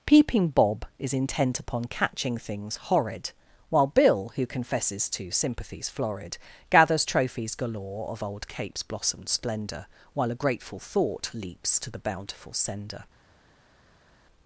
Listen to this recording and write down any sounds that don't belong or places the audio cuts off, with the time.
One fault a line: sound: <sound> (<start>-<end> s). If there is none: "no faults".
no faults